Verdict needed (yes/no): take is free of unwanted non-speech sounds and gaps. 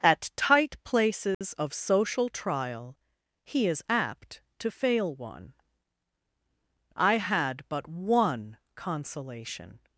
no